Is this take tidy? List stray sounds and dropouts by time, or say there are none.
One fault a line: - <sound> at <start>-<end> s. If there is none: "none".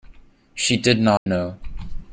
- dropout at 1.2-1.3 s